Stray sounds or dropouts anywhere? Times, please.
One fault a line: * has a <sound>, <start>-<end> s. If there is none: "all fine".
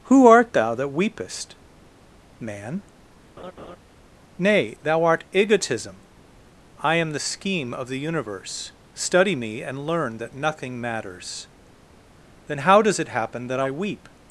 * has a laugh, 3.4-3.8 s